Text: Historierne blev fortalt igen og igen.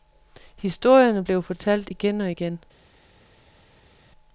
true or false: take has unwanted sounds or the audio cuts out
false